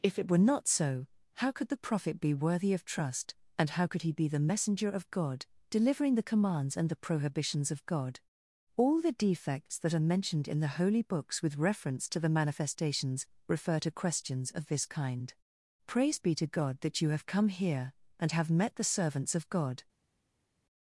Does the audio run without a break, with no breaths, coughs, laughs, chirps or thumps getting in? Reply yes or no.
yes